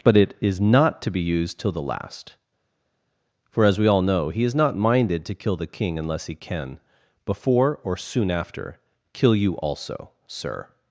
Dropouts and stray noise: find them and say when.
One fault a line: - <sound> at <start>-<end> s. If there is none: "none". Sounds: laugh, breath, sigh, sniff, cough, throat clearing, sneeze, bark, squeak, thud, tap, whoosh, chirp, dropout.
none